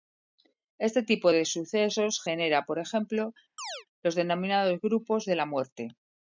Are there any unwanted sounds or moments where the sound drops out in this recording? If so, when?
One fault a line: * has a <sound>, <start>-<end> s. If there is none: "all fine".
* has a chirp, 3.6-3.9 s